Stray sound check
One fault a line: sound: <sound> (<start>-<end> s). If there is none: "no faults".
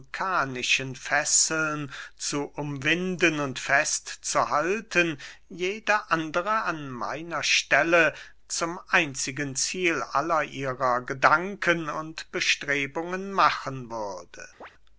sound: chirp (14.6-14.7 s)